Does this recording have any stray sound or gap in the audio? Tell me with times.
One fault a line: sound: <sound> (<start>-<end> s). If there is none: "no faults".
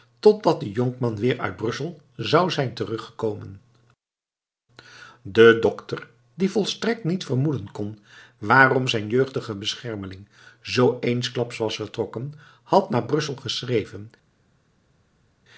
no faults